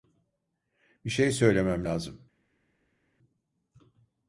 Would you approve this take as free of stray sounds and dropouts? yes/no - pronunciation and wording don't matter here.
yes